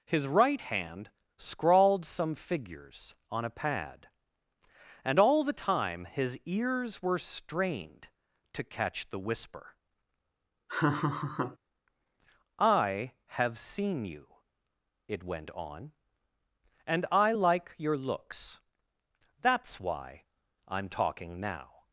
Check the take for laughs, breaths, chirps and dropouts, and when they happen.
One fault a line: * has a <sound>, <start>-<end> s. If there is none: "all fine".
* has a laugh, 10.7-11.6 s